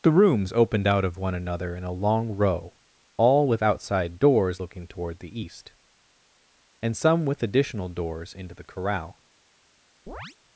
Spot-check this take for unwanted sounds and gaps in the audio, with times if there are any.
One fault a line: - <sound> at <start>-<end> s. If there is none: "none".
- chirp at 10.1-10.4 s